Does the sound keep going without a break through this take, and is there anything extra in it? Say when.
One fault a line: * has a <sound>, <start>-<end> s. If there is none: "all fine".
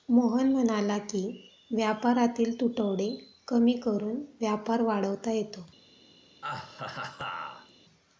* has a laugh, 6.4-7.7 s